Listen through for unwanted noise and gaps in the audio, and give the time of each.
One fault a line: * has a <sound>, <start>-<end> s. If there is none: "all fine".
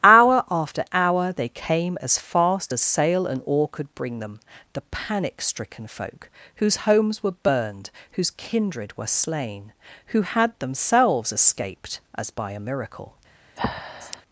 * has a breath, 13.6-14.2 s